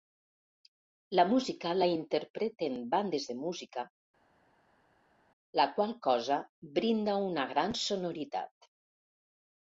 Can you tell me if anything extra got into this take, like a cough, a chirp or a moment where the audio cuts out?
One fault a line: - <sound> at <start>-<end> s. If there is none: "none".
none